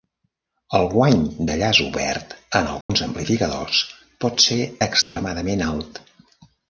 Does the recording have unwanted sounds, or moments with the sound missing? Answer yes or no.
yes